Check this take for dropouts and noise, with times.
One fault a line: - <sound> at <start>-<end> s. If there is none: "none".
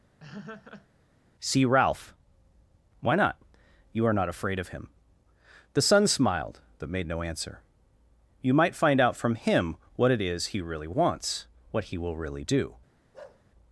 - laugh at 0.2-0.9 s
- bark at 13.1-13.4 s